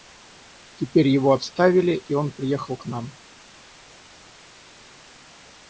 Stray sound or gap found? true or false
false